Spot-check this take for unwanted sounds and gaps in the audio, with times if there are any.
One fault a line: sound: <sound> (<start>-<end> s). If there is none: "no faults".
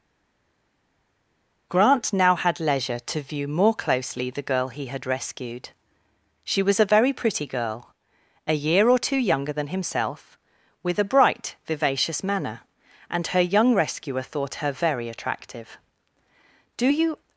no faults